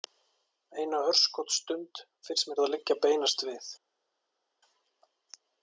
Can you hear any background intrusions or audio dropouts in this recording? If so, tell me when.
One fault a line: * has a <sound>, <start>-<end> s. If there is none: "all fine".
all fine